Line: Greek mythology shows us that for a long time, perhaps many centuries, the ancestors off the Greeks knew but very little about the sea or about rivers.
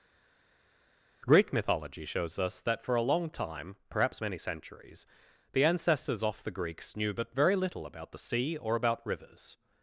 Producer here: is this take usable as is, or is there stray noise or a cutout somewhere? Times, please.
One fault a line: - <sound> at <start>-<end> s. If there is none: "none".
none